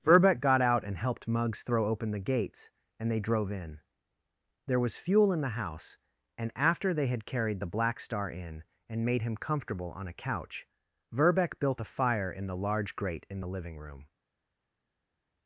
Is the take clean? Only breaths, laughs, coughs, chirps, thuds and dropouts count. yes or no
yes